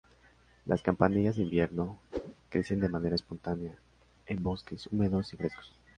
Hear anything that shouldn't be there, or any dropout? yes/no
yes